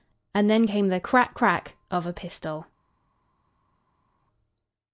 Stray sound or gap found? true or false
false